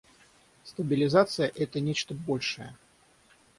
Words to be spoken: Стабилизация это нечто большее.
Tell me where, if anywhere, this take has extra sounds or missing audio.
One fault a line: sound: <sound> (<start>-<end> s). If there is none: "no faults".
no faults